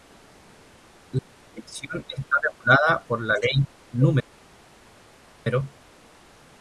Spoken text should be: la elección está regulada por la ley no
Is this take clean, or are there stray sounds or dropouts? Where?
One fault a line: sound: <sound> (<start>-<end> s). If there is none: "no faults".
no faults